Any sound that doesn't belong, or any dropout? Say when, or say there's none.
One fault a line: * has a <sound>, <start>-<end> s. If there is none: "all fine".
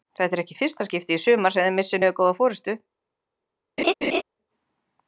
* has a laugh, 3.8-4.2 s